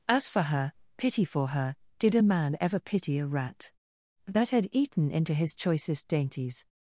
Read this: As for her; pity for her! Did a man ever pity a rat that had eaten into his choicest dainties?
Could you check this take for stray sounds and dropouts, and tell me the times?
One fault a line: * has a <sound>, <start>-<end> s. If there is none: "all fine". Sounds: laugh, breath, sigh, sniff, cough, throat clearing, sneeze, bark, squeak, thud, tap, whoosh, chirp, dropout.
all fine